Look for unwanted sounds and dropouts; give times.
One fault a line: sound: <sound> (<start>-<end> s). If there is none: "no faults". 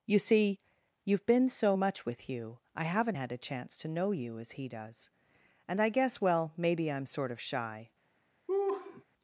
sound: laugh (8.5-9.0 s)